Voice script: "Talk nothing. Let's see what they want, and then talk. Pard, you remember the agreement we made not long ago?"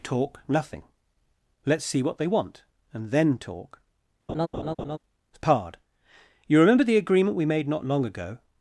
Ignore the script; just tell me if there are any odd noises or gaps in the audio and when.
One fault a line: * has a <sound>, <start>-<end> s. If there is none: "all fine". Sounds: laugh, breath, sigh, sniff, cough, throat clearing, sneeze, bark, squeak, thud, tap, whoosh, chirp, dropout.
* has a laugh, 4.3-5.0 s